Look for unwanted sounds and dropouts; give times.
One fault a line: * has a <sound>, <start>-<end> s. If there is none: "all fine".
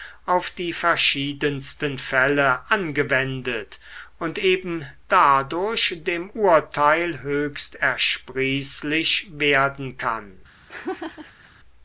* has a laugh, 10.7-11.5 s